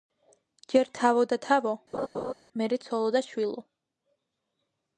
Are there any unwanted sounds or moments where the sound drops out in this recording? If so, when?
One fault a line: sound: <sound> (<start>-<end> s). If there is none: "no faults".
sound: laugh (1.9-2.3 s)